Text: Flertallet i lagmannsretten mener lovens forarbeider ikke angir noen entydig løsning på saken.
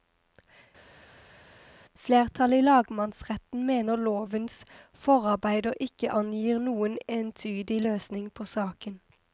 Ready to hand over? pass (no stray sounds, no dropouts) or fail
pass